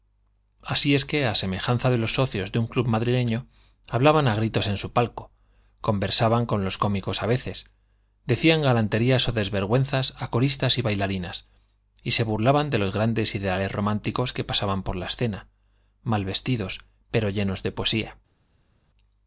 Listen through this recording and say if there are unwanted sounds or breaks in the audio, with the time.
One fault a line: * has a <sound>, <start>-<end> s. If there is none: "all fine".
all fine